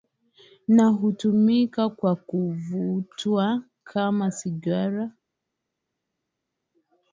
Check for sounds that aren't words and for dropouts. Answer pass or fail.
pass